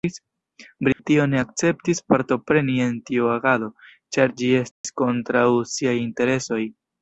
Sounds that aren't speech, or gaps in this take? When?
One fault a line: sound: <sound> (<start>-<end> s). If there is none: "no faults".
sound: dropout (0.9-1.0 s)
sound: dropout (4.7-4.8 s)